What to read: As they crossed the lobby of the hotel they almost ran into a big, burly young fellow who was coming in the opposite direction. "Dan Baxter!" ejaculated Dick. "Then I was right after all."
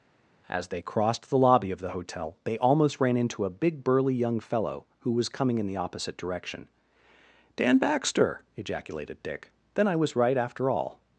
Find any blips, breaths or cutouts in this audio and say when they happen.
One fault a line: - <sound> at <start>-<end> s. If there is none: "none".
none